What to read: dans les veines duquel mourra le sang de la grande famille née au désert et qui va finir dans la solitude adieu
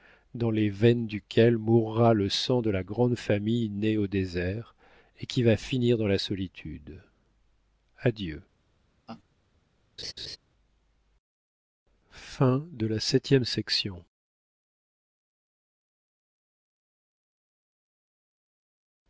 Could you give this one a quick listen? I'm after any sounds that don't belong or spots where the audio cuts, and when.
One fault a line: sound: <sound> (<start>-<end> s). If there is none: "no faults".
sound: laugh (9.1-9.2 s)
sound: laugh (10.0-10.4 s)